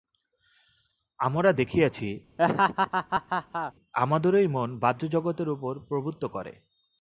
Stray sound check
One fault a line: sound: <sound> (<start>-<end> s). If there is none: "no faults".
sound: laugh (2.4-3.7 s)